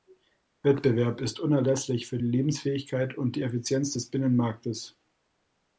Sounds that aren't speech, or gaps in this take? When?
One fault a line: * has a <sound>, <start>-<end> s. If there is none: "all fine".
all fine